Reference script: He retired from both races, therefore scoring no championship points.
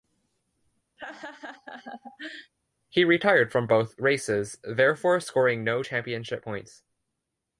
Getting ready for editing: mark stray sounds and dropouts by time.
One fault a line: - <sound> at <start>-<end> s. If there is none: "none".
- laugh at 1.0-2.5 s